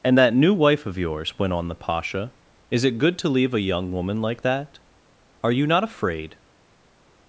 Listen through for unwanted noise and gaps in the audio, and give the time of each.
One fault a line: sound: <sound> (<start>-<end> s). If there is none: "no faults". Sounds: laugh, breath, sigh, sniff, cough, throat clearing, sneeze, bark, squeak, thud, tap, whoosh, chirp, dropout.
no faults